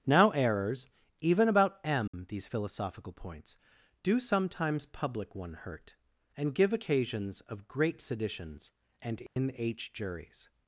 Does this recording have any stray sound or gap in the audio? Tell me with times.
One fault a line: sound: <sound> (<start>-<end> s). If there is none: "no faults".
sound: dropout (2.1-2.1 s)
sound: dropout (9.3-9.4 s)